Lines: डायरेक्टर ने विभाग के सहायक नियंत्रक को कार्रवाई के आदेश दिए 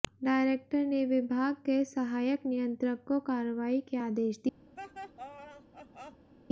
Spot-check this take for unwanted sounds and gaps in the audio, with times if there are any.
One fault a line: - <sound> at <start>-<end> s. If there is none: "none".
- laugh at 4.8-6.3 s